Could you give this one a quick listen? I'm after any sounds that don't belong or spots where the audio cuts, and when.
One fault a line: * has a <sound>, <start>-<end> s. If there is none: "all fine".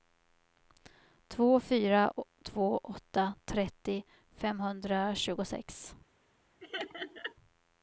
* has a laugh, 6.6-7.3 s